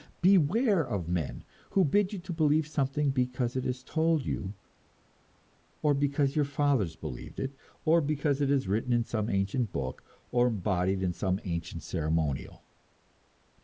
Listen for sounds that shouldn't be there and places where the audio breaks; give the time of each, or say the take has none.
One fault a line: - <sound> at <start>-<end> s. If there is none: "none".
none